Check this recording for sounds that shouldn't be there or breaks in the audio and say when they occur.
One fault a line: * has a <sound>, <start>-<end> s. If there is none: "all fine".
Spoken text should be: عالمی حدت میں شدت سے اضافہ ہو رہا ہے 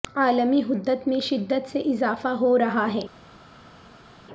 all fine